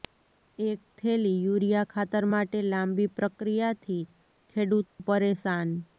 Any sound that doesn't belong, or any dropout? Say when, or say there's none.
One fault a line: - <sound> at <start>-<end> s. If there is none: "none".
- dropout at 4.9-5.0 s